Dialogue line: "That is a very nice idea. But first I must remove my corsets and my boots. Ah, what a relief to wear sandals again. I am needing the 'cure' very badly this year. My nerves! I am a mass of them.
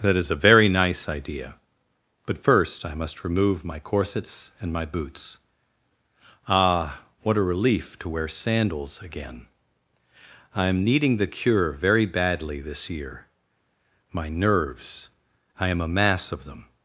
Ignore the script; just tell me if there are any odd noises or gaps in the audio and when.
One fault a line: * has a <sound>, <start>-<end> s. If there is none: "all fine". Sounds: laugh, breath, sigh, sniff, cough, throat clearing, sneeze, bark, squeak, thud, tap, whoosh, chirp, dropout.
all fine